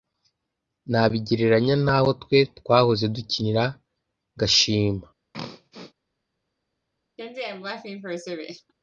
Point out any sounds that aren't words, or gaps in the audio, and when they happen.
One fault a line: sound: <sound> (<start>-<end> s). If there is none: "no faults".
sound: throat clearing (5.3-5.9 s)
sound: laugh (7.2-8.7 s)